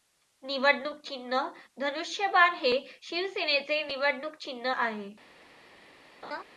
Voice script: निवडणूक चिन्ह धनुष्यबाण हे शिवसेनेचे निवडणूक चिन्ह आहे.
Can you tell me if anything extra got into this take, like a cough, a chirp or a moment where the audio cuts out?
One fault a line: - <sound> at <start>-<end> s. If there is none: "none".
- laugh at 6.2-6.4 s